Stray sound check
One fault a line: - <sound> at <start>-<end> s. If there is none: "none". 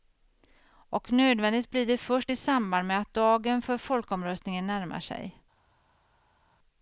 none